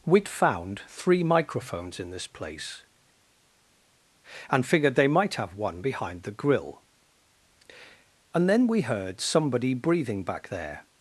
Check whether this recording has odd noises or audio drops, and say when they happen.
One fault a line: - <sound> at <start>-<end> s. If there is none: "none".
none